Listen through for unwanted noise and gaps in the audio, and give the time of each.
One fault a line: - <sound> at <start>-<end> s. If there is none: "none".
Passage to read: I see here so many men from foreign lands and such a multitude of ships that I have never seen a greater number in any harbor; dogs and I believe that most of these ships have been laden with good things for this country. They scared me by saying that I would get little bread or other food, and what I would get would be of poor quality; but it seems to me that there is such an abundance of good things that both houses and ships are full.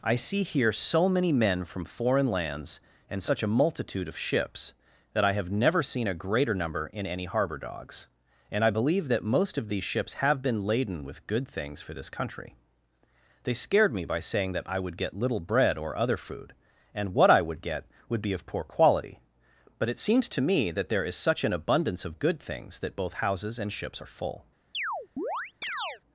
- chirp at 24.7-26.0 s